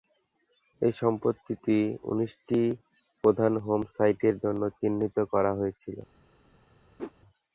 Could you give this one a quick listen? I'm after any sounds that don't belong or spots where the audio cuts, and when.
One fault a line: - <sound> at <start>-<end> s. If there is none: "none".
- whoosh at 7.0-7.1 s